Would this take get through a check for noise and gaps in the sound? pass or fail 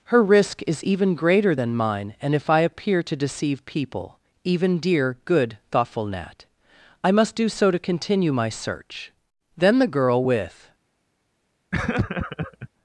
fail